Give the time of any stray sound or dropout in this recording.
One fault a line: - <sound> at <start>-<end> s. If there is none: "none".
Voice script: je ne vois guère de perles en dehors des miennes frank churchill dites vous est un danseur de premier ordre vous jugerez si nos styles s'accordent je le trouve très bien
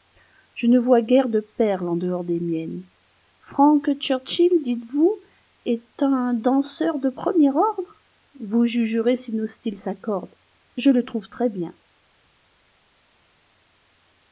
none